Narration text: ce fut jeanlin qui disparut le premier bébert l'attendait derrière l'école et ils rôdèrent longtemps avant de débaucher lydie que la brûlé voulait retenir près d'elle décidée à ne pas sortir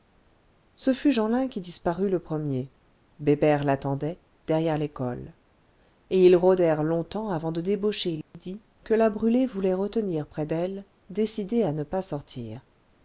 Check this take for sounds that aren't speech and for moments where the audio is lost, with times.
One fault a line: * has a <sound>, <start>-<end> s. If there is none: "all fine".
* has a dropout, 8.2-8.3 s